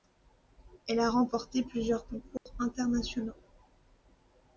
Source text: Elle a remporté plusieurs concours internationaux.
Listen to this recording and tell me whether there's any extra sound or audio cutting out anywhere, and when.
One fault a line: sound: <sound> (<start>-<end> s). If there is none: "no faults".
sound: dropout (2.4-2.5 s)